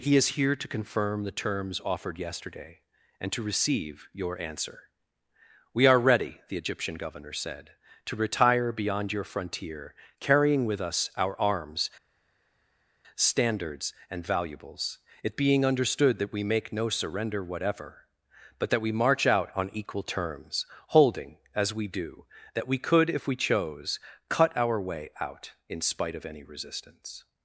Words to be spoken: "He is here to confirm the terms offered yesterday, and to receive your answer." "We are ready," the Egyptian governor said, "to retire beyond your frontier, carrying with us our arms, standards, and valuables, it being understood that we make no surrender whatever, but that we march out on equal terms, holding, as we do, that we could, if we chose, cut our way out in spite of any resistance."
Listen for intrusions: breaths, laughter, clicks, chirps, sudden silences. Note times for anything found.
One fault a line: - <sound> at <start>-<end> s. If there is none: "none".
none